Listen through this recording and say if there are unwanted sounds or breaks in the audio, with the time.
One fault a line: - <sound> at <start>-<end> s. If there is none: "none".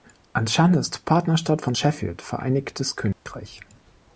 - dropout at 3.1-3.3 s